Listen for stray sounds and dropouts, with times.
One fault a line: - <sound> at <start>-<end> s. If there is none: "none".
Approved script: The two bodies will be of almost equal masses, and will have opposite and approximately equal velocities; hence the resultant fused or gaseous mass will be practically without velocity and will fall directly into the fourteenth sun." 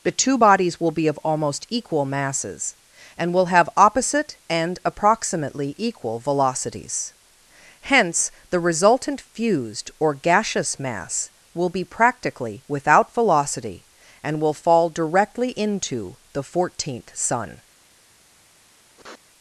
- sniff at 18.9-19.2 s